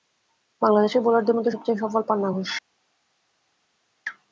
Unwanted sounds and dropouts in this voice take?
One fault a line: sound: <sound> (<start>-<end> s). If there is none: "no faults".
no faults